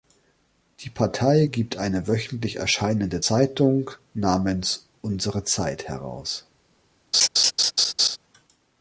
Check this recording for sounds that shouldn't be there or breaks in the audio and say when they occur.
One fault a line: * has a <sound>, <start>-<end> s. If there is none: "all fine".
* has a laugh, 7.1-8.2 s